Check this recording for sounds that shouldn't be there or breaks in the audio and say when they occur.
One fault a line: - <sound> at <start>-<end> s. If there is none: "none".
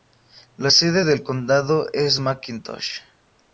none